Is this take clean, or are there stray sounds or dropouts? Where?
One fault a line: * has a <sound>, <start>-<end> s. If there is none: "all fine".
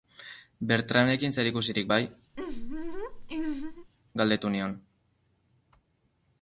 * has a laugh, 2.3-3.9 s